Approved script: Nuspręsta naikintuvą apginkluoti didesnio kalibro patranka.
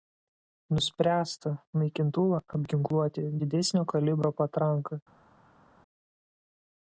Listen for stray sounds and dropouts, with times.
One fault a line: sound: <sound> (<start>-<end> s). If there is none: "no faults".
no faults